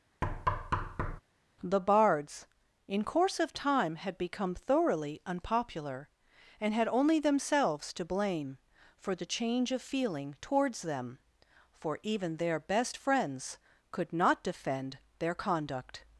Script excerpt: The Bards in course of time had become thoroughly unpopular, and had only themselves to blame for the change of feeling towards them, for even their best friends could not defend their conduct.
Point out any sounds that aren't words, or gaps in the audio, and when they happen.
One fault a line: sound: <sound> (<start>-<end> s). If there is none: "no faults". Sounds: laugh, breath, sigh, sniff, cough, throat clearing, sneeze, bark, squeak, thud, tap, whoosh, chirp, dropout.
sound: thud (0.2-1.2 s)